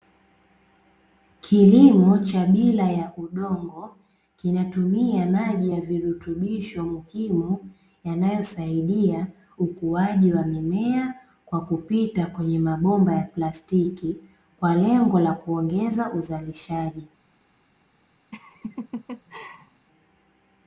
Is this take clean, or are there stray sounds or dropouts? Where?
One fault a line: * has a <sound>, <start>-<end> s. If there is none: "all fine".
* has a laugh, 18.3-19.9 s